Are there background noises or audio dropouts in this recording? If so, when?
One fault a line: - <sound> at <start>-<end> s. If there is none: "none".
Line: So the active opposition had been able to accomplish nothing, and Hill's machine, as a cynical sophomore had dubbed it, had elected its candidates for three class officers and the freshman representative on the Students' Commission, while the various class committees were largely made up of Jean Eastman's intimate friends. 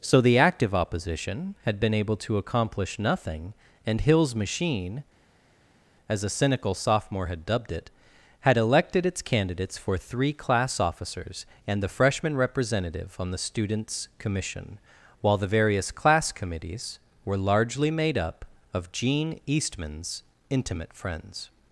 none